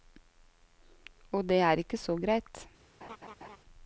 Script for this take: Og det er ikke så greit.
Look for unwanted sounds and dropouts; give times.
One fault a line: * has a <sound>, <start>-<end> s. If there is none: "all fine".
* has a laugh, 3.0-3.6 s